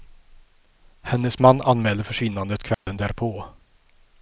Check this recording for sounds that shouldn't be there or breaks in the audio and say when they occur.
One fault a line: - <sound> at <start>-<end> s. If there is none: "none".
- dropout at 2.7-2.9 s